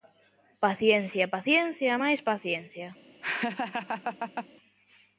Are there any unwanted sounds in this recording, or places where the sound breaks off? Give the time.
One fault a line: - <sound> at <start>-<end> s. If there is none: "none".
- laugh at 3.2-4.5 s